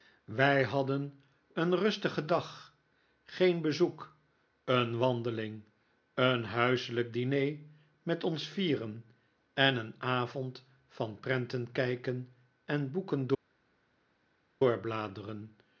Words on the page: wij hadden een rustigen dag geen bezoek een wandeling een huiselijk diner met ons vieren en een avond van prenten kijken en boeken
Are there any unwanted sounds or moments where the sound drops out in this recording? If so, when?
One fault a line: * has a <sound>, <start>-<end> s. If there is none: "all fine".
all fine